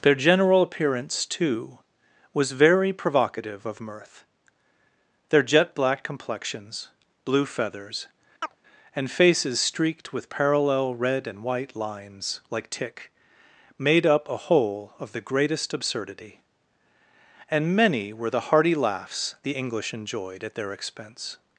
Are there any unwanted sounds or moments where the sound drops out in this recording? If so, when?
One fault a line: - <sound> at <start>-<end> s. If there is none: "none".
- chirp at 8.4-8.6 s